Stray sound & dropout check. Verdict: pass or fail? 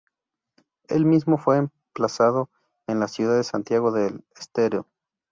pass